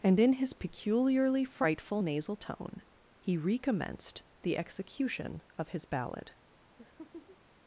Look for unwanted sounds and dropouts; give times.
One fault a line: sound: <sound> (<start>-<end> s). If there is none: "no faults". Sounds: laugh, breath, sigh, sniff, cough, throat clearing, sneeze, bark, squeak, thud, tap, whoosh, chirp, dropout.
sound: laugh (6.8-7.4 s)